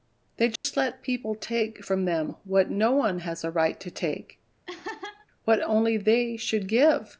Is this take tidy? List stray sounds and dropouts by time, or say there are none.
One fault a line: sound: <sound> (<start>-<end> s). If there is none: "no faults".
sound: dropout (0.6-0.6 s)
sound: laugh (4.7-5.3 s)